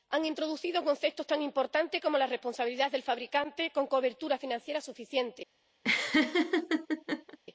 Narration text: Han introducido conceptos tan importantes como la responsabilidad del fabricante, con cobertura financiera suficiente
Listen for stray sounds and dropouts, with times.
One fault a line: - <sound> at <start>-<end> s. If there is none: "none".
- laugh at 5.8-7.4 s